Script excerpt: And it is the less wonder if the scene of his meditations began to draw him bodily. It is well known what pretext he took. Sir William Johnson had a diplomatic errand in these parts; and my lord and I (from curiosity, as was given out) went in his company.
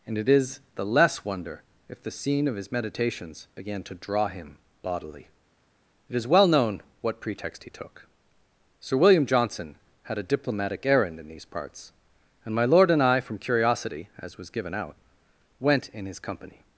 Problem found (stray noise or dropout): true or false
false